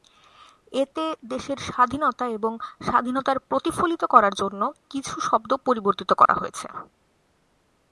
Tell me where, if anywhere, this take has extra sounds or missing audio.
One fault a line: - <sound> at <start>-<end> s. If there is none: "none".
- dropout at 6.3-6.3 s